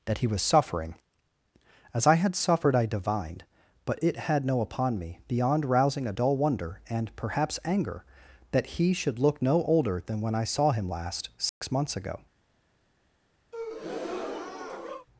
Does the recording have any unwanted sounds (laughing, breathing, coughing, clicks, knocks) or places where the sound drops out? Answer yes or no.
yes